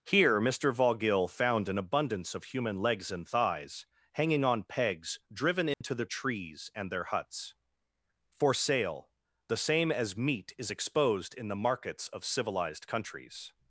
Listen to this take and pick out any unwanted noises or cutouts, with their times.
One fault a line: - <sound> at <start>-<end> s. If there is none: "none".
- dropout at 5.7-5.8 s